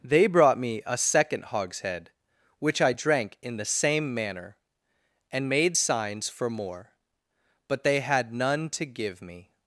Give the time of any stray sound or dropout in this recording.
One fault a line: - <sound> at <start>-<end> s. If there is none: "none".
none